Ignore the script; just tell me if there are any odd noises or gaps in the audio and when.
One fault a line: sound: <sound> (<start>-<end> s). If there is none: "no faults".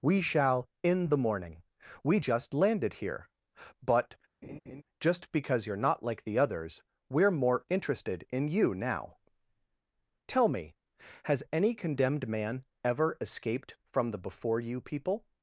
sound: laugh (4.4-4.8 s)